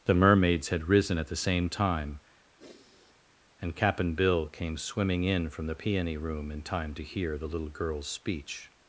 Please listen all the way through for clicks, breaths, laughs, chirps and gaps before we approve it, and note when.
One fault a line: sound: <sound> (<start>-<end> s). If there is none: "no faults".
sound: sigh (2.6-3.3 s)